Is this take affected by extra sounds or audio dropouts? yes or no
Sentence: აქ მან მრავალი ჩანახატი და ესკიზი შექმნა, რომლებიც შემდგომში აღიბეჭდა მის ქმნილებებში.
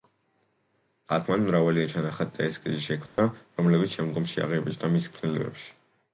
yes